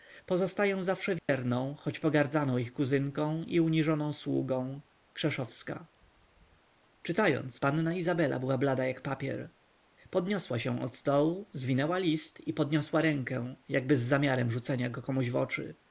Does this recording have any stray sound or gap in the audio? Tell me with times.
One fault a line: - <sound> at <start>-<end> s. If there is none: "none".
- dropout at 1.2-1.3 s